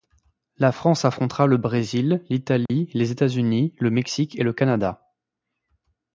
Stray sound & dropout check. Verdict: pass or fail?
fail